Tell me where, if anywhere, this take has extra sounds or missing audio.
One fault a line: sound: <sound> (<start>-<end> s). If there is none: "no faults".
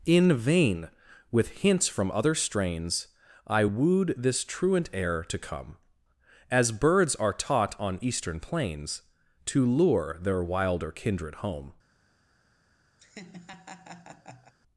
sound: laugh (13.0-14.5 s)